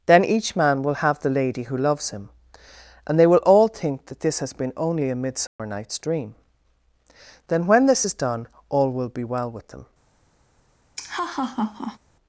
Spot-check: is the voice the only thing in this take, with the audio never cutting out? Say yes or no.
no